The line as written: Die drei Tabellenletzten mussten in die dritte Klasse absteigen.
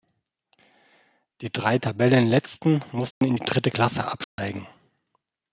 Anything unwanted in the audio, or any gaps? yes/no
yes